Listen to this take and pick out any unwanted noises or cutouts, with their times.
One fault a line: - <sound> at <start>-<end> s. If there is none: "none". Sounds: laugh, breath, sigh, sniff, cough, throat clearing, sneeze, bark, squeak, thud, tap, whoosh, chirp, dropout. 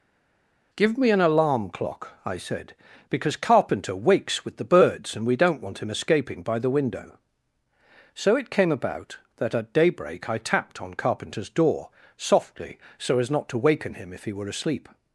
none